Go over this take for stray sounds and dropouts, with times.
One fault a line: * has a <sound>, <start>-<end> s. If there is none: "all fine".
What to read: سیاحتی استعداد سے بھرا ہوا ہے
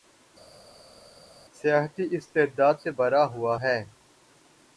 all fine